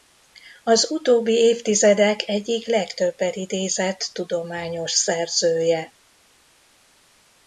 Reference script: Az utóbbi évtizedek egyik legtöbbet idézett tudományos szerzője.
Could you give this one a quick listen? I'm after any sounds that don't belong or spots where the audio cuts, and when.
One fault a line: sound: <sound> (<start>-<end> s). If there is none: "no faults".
no faults